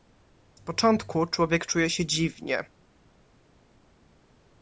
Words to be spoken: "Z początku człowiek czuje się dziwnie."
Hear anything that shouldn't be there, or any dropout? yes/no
no